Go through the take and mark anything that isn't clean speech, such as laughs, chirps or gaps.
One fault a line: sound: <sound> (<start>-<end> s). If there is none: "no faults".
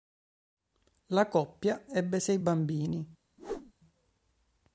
sound: whoosh (3.4-3.7 s)